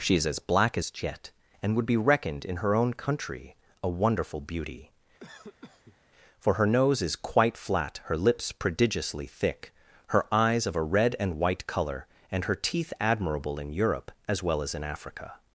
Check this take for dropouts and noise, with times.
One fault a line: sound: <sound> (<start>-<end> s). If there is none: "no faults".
sound: cough (5.2-6.0 s)